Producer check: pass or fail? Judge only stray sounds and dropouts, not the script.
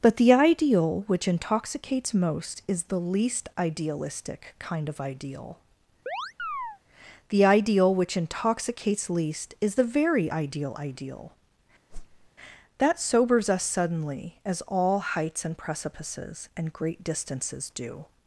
fail